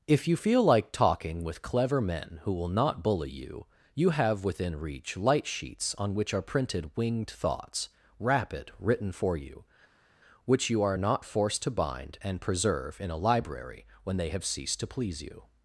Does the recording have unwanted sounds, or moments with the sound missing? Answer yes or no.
no